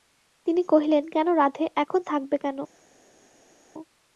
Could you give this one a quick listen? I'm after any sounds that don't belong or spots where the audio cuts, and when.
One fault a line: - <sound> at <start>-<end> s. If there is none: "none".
none